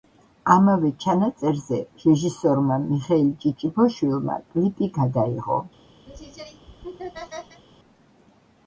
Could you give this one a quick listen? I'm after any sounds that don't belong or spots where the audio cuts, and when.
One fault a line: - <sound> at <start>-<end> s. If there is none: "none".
- laugh at 6.1-7.6 s